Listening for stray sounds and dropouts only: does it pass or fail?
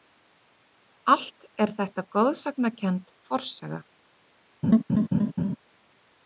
fail